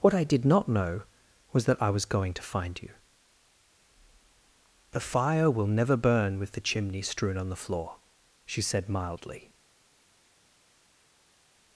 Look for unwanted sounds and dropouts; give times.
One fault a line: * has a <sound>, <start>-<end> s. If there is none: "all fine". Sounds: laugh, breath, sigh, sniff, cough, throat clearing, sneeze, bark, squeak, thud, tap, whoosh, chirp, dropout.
all fine